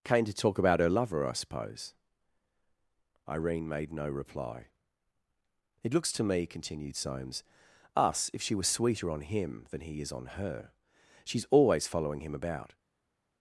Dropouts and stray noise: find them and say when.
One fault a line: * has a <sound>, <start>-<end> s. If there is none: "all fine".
all fine